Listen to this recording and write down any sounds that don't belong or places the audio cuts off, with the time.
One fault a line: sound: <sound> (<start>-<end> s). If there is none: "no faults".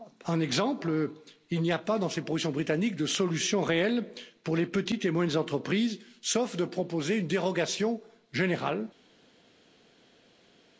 no faults